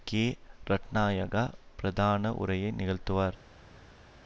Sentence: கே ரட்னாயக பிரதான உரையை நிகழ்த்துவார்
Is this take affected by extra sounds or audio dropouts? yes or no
no